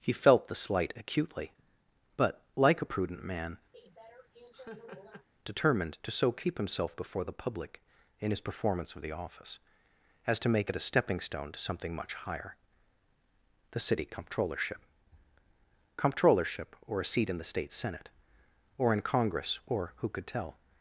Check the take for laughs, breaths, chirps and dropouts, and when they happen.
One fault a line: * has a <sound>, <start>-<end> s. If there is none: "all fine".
* has a laugh, 3.7-5.3 s